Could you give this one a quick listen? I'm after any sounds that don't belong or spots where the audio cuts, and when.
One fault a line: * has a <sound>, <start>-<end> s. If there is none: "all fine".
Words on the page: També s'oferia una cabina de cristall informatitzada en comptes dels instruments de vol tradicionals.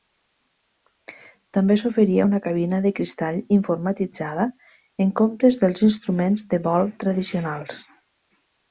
all fine